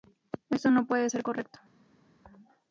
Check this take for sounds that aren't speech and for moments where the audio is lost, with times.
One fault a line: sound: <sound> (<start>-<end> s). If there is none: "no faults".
no faults